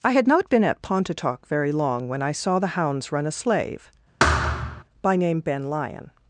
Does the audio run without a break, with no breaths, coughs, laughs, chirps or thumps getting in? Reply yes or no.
no